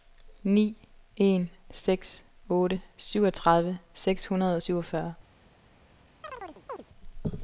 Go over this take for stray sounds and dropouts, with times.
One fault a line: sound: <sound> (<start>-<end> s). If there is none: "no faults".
sound: chirp (6.2-6.8 s)